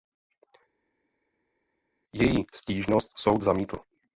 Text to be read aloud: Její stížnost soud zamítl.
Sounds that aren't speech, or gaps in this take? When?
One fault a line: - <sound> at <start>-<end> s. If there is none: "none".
none